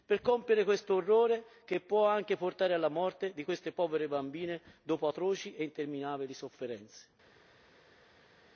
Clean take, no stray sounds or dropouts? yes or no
yes